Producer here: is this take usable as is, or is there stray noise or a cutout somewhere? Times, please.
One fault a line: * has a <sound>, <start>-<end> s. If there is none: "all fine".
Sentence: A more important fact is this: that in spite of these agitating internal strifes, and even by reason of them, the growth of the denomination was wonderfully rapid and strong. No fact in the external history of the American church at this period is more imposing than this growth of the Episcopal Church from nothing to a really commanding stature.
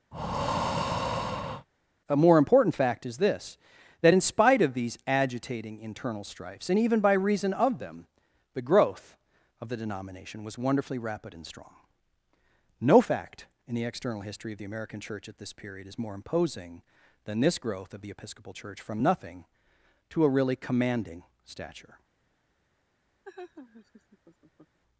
* has a breath, 0.1-1.7 s
* has a laugh, 23.2-24.8 s